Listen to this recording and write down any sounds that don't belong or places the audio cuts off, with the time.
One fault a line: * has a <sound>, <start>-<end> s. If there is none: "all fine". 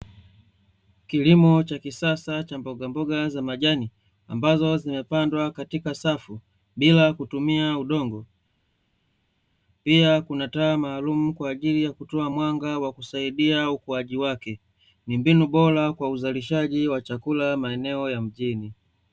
all fine